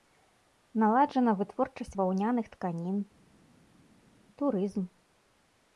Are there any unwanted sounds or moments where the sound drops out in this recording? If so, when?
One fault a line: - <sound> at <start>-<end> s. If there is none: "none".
none